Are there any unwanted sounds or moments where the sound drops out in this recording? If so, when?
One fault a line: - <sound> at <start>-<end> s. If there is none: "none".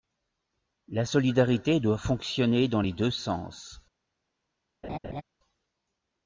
- laugh at 4.8-5.2 s